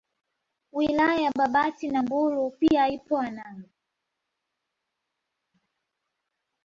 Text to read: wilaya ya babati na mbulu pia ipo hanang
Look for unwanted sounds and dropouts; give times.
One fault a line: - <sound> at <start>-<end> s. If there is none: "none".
none